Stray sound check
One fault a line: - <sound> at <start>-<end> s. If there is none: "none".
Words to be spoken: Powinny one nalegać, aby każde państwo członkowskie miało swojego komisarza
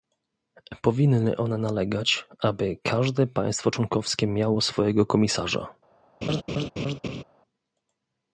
- laugh at 6.2-7.2 s